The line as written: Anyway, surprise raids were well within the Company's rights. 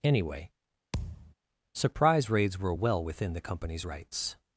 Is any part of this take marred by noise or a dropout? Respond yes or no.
yes